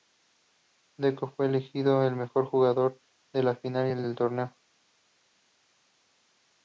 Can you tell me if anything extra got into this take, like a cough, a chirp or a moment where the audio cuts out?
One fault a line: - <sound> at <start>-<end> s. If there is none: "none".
none